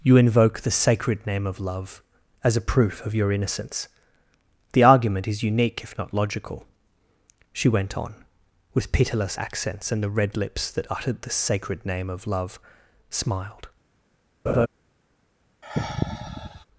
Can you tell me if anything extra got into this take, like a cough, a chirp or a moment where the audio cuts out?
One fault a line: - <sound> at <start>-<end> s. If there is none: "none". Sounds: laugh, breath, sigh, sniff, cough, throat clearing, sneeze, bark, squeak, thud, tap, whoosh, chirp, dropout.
- laugh at 14.5-14.7 s
- sigh at 15.6-16.7 s